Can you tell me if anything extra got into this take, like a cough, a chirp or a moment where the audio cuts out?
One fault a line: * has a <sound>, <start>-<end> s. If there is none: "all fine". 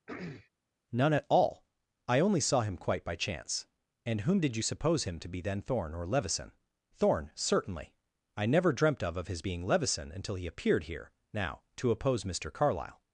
* has a throat clearing, 0.1-0.5 s